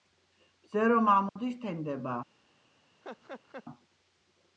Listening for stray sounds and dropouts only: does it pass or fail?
fail